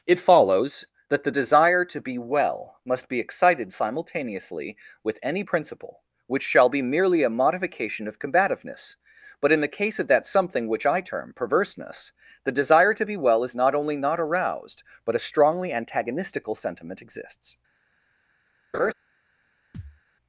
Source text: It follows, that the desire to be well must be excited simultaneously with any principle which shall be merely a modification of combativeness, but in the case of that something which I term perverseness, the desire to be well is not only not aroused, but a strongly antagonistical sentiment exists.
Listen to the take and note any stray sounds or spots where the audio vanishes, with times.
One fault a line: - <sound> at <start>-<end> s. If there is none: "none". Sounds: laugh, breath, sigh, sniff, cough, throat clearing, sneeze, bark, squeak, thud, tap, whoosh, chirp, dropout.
- laugh at 18.7-18.9 s
- thud at 19.7-20.0 s